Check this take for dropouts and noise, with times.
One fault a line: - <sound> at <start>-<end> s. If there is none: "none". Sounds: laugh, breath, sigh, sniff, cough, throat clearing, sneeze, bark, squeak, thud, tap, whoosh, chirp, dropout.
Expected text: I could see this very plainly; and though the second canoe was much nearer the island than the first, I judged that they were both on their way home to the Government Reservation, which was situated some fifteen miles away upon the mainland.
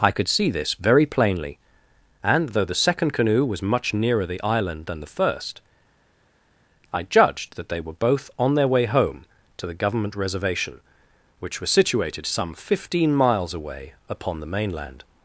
none